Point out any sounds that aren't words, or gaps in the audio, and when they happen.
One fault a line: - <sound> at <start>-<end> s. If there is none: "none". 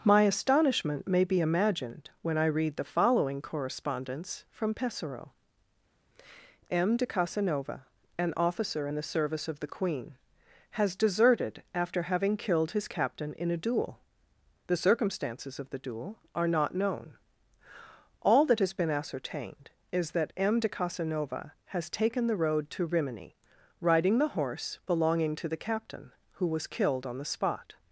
none